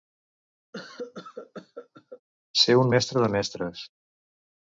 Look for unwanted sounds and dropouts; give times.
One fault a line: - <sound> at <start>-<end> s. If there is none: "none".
- cough at 0.7-2.2 s